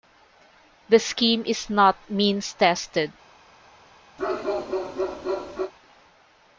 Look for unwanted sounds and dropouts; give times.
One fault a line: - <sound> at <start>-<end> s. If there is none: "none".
- bark at 4.2-5.7 s